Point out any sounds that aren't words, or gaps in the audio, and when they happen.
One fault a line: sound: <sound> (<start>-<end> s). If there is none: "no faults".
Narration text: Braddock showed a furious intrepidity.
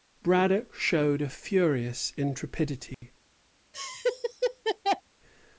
sound: dropout (2.9-3.0 s)
sound: laugh (3.7-5.0 s)